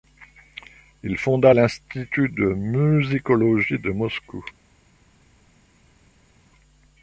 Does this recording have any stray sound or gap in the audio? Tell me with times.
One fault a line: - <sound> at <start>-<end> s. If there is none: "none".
none